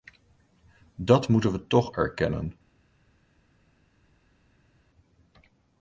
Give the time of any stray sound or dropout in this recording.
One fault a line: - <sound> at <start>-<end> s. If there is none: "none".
none